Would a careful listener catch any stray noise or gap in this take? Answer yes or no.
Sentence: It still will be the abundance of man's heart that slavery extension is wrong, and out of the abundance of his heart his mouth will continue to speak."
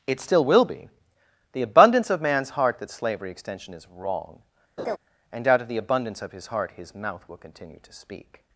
yes